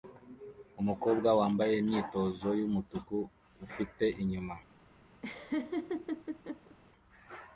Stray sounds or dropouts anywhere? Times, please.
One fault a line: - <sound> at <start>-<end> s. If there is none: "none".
- laugh at 5.2-6.8 s